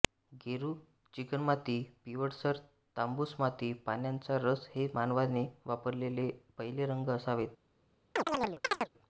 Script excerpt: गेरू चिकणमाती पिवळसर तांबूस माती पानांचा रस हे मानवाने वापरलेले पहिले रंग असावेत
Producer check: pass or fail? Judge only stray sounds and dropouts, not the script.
fail